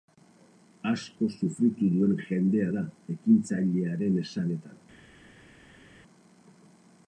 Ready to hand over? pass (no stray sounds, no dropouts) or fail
pass